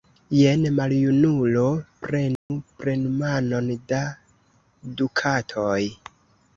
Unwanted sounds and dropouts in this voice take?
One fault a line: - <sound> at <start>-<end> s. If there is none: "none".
- dropout at 2.4-2.5 s